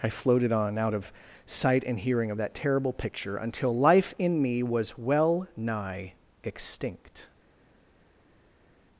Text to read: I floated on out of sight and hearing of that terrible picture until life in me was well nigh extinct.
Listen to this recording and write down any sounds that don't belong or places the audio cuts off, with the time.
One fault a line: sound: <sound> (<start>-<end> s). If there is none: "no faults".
no faults